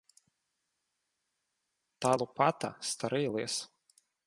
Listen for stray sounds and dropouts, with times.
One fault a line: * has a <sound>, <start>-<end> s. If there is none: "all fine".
all fine